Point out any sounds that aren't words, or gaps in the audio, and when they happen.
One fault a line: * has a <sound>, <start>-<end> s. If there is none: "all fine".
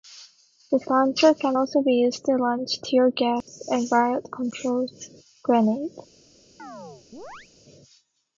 * has a dropout, 3.4-3.5 s
* has a chirp, 6.6-7.5 s